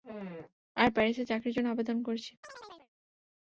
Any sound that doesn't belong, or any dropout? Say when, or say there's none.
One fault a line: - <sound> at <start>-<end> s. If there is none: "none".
- chirp at 2.4-2.9 s